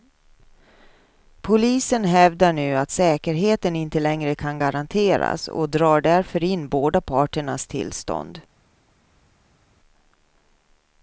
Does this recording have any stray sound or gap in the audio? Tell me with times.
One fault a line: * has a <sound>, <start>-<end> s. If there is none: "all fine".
all fine